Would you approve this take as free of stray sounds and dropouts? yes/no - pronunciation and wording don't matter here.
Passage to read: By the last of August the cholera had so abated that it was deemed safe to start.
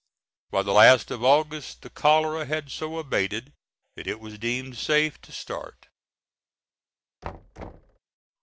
no